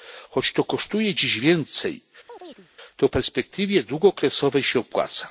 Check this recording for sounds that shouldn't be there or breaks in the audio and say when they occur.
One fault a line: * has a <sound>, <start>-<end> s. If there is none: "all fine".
* has a chirp, 2.3-2.7 s